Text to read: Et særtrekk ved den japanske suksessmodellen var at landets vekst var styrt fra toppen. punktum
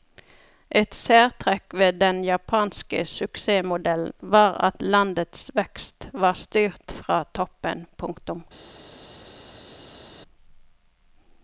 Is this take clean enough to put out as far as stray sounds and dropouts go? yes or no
yes